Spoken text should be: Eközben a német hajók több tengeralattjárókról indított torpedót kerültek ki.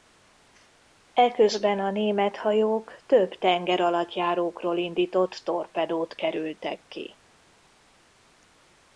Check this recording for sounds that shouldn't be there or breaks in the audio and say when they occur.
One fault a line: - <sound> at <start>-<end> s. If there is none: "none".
none